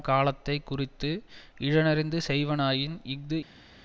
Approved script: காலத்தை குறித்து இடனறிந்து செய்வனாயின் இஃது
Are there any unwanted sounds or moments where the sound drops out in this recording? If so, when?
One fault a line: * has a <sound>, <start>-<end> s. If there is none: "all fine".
all fine